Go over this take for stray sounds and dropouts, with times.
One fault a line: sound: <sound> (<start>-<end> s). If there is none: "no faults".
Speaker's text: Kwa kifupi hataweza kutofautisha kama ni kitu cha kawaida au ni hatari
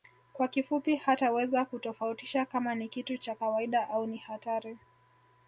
no faults